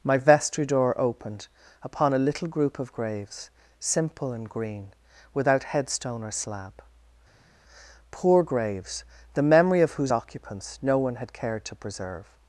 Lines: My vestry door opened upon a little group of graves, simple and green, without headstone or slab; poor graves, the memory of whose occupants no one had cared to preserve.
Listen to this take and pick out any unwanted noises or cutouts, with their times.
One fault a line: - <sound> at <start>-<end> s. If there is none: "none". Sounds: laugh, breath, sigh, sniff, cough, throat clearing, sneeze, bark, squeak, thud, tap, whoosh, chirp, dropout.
none